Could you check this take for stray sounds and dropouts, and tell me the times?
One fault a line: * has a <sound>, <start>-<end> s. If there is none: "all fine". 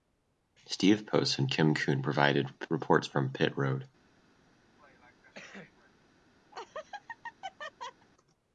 * has a cough, 4.8-5.9 s
* has a laugh, 6.5-8.1 s